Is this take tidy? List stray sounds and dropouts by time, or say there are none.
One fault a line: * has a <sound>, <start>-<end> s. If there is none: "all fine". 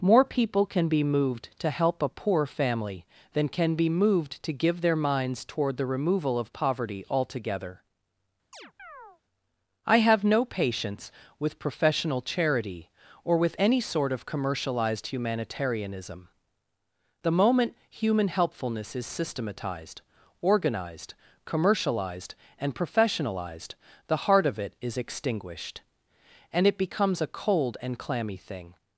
* has a chirp, 8.5-9.2 s